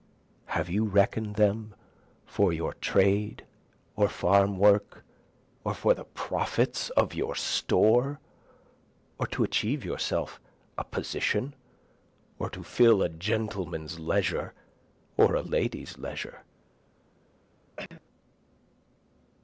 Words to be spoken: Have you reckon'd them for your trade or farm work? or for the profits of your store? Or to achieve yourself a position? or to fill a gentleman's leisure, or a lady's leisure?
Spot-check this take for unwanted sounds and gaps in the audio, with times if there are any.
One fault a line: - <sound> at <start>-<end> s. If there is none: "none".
- cough at 17.8-18.0 s